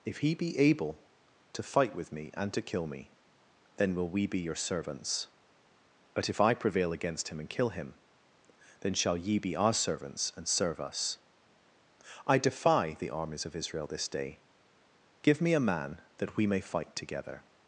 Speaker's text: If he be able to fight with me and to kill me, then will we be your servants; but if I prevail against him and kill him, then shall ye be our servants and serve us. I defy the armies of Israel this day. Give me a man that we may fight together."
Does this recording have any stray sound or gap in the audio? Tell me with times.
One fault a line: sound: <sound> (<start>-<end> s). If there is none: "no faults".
no faults